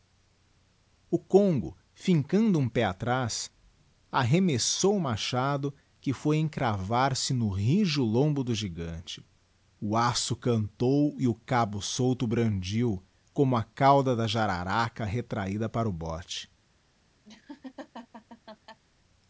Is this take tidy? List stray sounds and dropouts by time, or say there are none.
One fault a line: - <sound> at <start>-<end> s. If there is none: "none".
- laugh at 17.2-18.8 s